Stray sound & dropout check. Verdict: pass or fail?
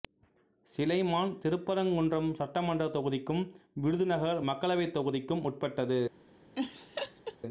fail